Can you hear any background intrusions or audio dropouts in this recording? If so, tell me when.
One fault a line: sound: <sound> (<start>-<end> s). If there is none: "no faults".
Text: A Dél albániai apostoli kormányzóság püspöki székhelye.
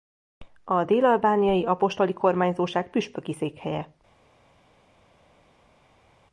no faults